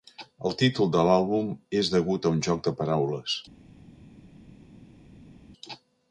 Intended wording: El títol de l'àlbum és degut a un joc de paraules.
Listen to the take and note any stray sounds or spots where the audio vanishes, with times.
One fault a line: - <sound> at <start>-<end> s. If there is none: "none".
none